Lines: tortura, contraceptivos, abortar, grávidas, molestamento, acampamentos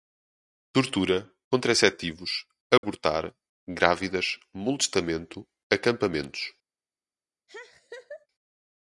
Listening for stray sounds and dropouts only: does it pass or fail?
fail